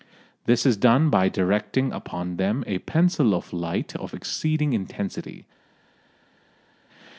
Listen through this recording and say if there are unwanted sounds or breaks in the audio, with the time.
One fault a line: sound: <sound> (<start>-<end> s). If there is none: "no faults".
no faults